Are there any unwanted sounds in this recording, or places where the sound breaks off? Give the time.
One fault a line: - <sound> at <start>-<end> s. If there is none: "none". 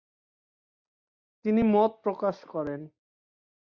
none